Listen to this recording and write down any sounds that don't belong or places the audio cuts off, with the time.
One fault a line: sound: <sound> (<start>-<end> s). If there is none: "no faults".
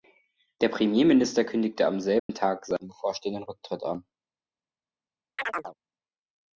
sound: dropout (2.2-2.3 s)
sound: chirp (5.4-5.8 s)